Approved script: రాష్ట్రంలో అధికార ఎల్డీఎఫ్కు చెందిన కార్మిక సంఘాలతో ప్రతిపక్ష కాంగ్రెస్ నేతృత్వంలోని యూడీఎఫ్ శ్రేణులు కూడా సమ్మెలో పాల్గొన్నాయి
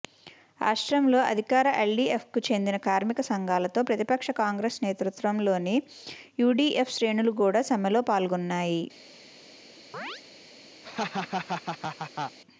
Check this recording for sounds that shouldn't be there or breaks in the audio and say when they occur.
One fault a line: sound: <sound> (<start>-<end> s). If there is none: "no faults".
sound: chirp (9.9-10.2 s)
sound: laugh (10.8-12.4 s)